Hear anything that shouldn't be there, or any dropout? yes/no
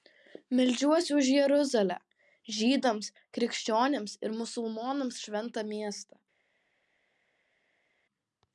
no